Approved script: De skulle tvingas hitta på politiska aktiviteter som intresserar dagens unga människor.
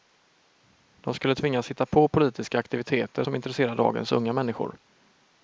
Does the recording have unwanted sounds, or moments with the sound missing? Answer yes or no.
no